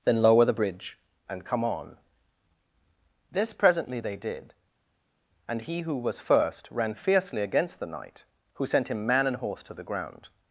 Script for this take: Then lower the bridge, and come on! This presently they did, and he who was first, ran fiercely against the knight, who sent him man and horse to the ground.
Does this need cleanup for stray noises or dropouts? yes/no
no